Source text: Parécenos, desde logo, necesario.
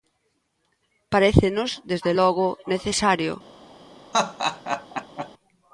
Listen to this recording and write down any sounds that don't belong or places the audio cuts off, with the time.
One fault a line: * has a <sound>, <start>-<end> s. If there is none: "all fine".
* has a laugh, 4.1-5.3 s